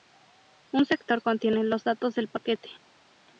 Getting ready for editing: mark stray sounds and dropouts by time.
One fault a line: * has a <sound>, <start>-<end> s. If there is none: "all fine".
all fine